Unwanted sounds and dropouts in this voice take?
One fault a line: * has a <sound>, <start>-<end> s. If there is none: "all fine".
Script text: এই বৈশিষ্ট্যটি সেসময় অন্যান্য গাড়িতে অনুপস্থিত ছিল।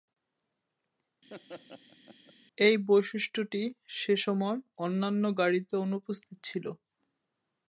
* has a laugh, 1.3-2.3 s